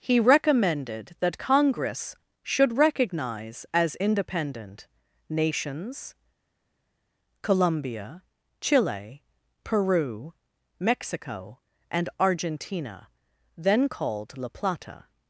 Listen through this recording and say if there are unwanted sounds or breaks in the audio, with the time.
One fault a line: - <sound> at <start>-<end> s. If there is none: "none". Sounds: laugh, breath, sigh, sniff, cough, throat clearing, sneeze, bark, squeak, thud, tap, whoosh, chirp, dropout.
none